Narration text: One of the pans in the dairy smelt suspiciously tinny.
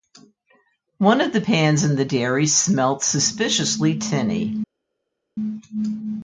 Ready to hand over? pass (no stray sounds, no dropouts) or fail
pass